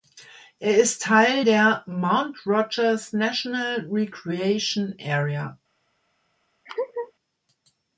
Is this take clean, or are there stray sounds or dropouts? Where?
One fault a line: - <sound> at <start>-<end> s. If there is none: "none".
- laugh at 6.7-7.1 s